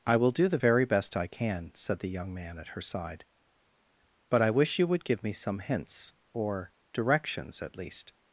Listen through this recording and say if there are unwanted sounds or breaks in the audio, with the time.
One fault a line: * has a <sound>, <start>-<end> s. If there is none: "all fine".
all fine